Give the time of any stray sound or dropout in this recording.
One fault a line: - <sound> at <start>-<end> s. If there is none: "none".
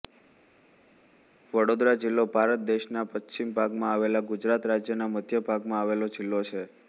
none